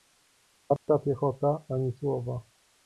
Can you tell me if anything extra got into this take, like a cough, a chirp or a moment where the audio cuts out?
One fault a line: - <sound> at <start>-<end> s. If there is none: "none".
- dropout at 0.8-0.9 s